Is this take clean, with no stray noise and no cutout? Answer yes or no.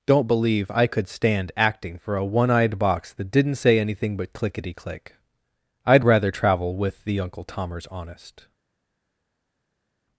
yes